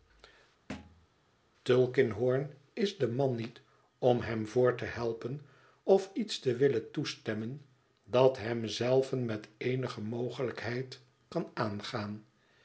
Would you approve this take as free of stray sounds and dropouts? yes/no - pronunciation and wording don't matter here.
no